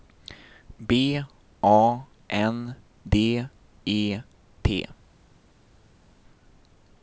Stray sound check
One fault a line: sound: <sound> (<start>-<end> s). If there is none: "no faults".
no faults